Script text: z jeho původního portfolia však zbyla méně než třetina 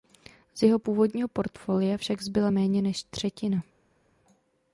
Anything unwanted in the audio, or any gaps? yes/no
no